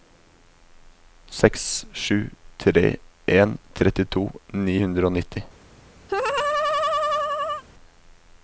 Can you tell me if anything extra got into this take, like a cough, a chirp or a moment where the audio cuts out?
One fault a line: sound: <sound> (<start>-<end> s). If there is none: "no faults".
sound: laugh (6.1-7.6 s)